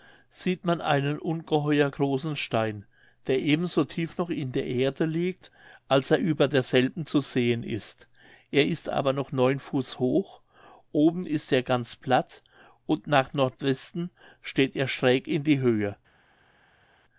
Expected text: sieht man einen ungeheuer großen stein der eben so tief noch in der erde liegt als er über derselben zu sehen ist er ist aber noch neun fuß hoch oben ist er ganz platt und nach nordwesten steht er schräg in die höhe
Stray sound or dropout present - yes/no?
no